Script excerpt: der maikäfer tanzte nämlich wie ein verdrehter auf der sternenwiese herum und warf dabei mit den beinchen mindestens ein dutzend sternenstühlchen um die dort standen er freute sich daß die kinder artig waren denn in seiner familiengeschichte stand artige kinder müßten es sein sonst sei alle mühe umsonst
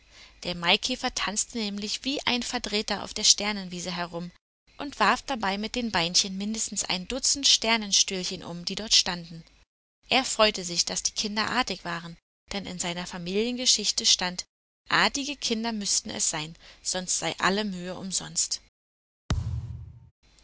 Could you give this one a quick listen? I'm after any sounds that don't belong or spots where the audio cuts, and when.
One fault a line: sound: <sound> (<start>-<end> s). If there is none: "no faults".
sound: thud (19.3-20.1 s)